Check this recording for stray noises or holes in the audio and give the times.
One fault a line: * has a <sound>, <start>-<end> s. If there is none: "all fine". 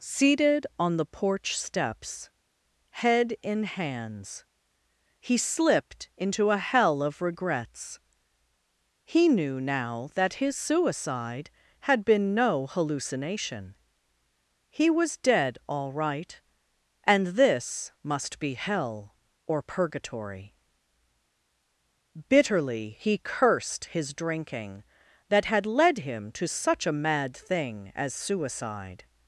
all fine